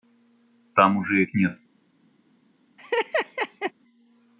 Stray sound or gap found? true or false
true